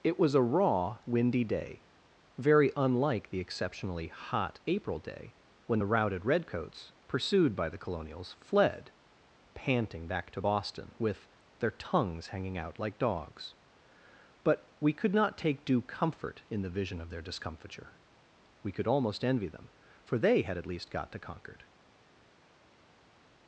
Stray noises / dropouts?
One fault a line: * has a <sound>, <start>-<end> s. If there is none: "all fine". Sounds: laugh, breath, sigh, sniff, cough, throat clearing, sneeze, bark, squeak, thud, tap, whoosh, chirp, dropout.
all fine